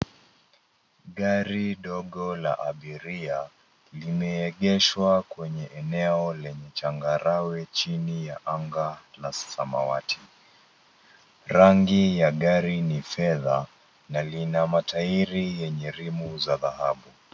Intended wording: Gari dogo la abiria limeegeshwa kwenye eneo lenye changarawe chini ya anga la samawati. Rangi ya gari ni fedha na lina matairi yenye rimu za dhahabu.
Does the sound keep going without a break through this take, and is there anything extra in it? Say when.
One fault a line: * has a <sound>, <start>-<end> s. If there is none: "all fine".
all fine